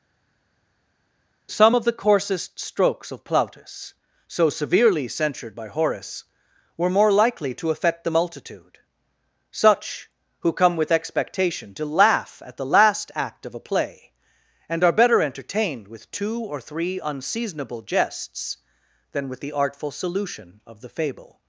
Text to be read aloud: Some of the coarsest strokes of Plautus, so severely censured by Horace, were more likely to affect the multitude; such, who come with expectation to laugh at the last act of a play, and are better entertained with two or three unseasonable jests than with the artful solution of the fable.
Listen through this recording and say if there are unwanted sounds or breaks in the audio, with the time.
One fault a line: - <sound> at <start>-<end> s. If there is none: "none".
none